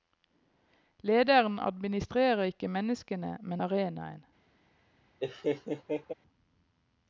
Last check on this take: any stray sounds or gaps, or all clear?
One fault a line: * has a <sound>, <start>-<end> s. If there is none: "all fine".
* has a laugh, 5.2-6.1 s